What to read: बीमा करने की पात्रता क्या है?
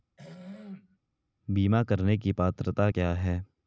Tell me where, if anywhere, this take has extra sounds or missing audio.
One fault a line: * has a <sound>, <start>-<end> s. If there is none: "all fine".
* has a throat clearing, 0.2-1.0 s